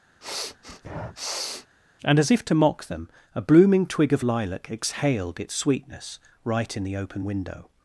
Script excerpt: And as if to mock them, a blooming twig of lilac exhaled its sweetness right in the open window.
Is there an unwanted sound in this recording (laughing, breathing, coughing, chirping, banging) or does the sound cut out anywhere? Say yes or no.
yes